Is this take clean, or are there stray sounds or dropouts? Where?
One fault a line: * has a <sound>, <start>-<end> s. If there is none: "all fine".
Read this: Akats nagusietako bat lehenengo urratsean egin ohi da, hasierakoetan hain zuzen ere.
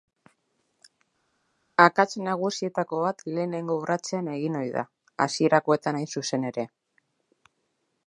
all fine